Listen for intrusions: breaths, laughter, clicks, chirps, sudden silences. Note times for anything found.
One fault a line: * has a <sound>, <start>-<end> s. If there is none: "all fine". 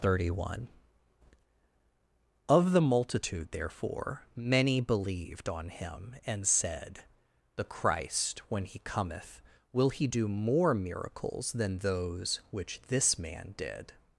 all fine